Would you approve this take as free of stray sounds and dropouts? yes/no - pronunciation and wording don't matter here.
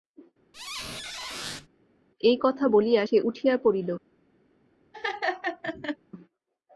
no